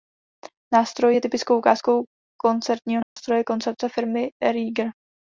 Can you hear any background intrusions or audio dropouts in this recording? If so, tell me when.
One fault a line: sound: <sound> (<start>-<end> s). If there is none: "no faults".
sound: dropout (3.0-3.2 s)